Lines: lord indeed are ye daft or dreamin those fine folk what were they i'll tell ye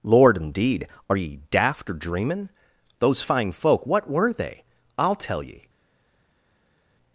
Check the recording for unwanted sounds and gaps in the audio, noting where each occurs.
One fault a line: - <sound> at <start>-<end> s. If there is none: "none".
none